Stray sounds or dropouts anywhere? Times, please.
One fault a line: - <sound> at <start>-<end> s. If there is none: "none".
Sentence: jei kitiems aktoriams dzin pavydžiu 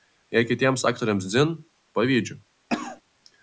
- cough at 2.7-3.0 s